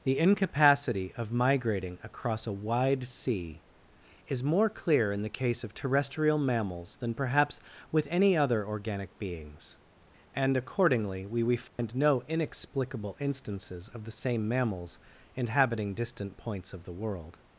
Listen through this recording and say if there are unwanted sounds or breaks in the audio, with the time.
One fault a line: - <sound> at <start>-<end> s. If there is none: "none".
- dropout at 11.7-11.8 s